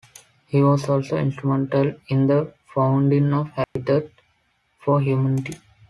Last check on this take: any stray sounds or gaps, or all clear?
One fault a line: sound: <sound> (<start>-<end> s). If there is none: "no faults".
sound: dropout (3.6-3.8 s)